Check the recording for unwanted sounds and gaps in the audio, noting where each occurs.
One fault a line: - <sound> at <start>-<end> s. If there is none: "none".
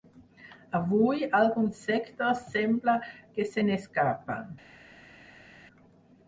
none